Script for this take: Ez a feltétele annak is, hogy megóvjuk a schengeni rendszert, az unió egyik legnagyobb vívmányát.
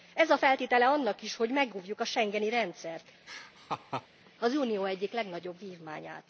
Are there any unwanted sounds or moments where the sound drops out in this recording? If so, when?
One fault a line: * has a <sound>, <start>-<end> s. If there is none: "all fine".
* has a laugh, 3.3-4.1 s